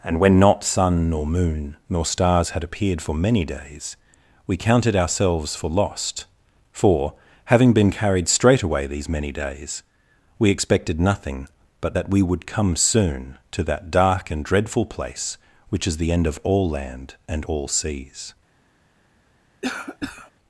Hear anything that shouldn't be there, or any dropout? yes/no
yes